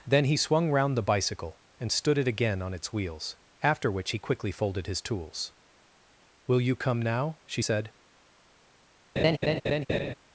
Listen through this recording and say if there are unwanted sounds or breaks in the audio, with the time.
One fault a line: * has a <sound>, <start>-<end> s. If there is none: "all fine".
* has a laugh, 9.2-10.1 s